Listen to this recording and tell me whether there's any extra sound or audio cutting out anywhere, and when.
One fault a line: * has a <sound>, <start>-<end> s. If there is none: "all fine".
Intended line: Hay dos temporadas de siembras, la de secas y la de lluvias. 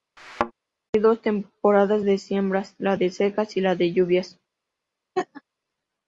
* has a thud, 0.2-0.5 s
* has a laugh, 5.2-5.4 s